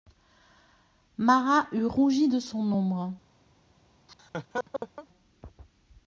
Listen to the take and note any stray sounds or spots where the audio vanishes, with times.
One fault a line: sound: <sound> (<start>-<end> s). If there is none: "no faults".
sound: laugh (4.1-5.1 s)